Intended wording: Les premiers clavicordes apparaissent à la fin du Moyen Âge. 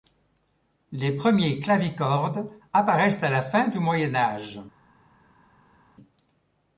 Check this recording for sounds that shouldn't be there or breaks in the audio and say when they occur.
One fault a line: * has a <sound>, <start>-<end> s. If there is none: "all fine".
all fine